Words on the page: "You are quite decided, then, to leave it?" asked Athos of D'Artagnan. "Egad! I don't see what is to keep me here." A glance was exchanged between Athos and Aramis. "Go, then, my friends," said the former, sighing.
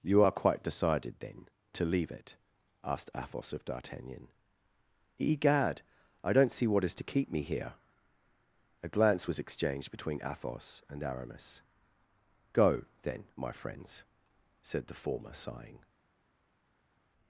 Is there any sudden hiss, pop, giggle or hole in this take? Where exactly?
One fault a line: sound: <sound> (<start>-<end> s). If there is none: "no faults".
no faults